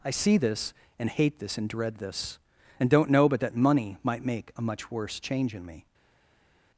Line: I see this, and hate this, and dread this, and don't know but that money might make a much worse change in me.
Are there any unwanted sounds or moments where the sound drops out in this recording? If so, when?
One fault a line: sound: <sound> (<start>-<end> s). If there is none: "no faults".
no faults